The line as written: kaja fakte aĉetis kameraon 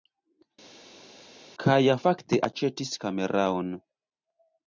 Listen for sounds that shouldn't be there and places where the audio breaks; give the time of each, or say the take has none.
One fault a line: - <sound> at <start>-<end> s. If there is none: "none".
none